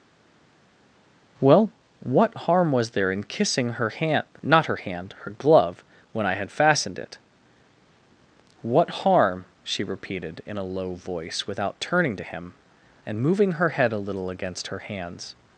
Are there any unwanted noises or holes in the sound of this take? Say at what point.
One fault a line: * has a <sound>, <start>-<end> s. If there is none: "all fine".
all fine